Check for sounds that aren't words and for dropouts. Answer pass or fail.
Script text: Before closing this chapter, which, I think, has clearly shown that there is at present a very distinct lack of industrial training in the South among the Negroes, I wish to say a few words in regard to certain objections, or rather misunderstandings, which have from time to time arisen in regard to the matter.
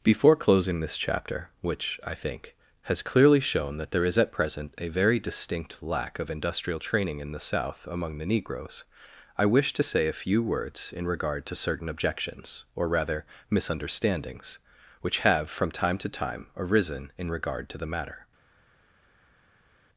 pass